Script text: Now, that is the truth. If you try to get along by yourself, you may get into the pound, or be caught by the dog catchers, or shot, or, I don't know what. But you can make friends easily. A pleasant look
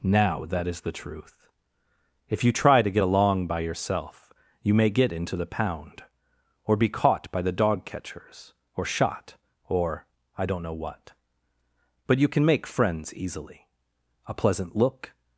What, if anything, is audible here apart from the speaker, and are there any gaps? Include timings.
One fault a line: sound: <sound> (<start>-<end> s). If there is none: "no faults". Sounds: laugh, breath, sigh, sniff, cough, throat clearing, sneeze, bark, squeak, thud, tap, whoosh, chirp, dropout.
no faults